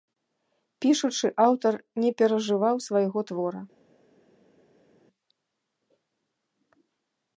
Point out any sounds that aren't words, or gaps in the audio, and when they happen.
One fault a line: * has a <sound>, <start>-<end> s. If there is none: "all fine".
all fine